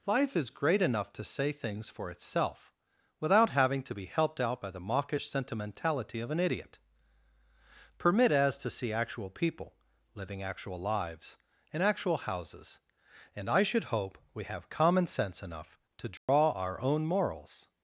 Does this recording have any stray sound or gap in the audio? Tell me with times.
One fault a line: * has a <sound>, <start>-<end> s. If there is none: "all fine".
* has a dropout, 16.2-16.3 s